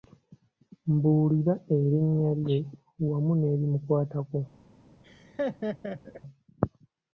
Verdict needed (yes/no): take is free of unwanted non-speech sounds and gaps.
no